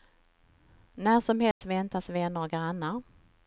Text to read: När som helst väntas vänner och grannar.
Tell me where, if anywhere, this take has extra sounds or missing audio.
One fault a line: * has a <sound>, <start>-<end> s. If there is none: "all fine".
* has a dropout, 1.5-1.6 s